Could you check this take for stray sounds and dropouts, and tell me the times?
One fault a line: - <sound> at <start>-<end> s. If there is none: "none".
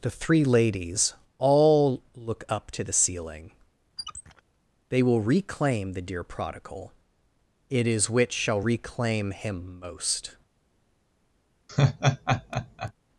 - squeak at 4.0-4.4 s
- laugh at 11.7-12.9 s